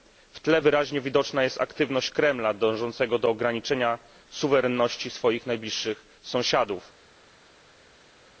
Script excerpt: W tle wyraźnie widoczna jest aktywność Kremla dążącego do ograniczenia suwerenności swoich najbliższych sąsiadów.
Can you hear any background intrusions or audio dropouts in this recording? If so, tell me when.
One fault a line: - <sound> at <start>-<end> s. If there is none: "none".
none